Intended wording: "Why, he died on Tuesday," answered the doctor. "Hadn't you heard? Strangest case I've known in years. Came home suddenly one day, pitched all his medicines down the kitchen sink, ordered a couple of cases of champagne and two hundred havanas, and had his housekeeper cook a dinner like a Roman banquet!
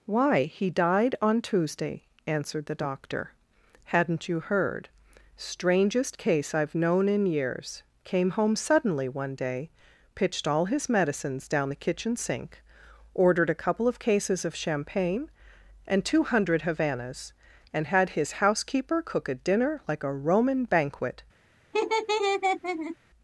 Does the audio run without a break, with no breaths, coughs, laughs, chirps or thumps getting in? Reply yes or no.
no